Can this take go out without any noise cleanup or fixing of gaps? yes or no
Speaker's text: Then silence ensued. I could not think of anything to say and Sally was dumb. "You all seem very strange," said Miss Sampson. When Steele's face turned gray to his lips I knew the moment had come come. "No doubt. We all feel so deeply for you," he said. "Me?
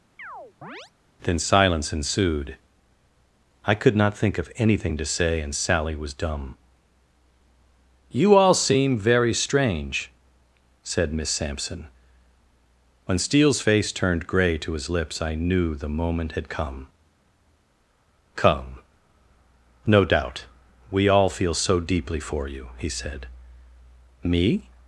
no